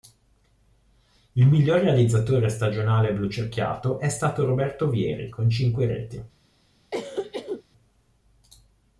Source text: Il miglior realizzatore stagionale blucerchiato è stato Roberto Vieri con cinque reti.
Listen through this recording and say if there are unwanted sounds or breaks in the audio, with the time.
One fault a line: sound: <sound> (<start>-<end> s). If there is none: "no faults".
sound: cough (6.9-7.6 s)